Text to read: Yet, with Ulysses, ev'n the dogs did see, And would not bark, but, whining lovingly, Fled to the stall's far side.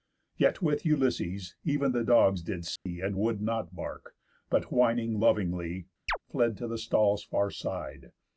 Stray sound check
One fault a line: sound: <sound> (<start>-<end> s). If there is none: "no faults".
sound: dropout (2.8-2.9 s)
sound: chirp (6.1-6.2 s)